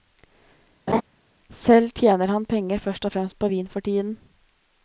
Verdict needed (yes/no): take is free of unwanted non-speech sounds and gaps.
no